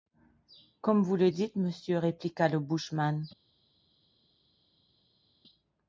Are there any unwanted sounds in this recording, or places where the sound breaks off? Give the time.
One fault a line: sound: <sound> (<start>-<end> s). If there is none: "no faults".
no faults